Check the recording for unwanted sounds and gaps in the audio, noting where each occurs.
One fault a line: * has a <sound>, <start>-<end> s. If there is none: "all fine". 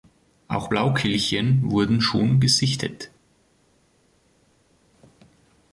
all fine